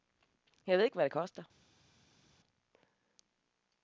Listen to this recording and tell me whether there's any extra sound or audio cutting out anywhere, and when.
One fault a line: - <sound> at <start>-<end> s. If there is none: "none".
none